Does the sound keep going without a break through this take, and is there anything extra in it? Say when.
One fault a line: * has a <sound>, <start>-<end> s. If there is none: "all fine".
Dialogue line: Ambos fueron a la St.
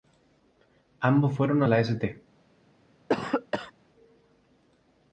* has a cough, 3.1-3.7 s